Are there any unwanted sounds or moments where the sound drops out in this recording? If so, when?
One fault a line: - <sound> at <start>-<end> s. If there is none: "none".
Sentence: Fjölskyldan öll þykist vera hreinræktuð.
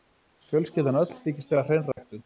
- dropout at 1.9-2.0 s